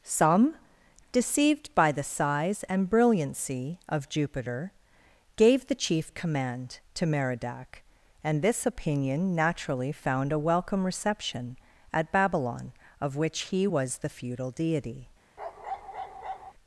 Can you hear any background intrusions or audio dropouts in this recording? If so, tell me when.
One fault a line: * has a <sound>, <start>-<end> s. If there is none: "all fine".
* has a bark, 15.4-16.5 s